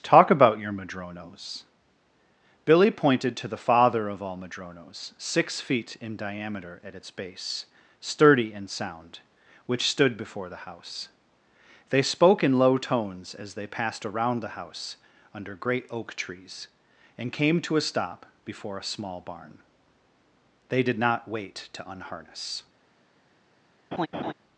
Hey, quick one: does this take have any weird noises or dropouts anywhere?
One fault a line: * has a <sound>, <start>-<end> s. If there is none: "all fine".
* has a laugh, 23.9-24.3 s